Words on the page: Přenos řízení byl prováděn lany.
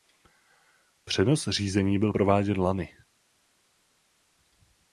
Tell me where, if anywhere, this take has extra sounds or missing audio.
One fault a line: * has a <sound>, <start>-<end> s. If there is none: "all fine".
all fine